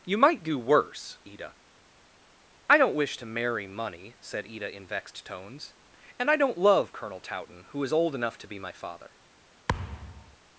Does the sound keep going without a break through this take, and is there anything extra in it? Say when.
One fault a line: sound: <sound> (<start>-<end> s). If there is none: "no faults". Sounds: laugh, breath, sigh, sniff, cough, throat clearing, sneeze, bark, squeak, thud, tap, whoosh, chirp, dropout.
sound: thud (9.7-10.4 s)